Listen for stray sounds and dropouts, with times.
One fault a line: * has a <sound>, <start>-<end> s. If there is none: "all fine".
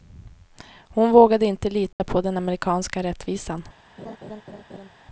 * has a dropout, 1.9-2.0 s
* has a laugh, 4.0-4.9 s